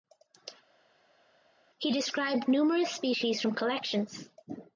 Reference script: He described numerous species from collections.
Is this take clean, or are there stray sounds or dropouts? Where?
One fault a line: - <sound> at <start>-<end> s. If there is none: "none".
none